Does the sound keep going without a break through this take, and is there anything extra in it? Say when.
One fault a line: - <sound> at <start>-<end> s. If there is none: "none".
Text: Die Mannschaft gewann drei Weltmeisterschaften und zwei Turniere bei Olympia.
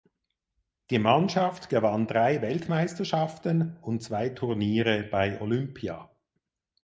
none